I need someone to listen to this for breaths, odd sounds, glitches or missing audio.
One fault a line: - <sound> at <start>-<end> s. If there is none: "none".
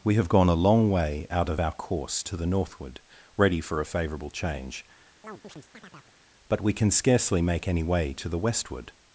- chirp at 5.2-6.1 s